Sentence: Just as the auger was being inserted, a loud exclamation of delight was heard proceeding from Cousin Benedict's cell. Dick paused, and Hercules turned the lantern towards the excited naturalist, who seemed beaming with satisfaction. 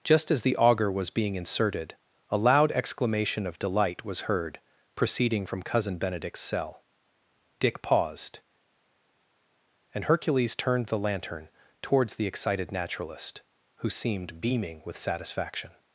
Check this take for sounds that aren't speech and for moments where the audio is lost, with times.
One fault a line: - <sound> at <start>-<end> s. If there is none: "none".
none